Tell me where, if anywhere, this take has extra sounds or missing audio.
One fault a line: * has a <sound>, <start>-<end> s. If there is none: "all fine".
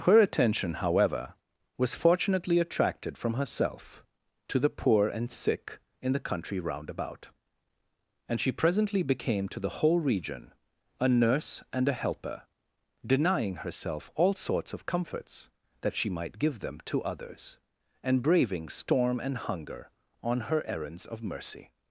all fine